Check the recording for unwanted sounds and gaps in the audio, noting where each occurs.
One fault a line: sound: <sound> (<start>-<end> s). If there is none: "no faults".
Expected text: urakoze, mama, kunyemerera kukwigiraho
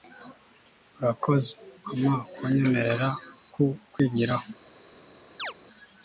sound: chirp (5.4-5.5 s)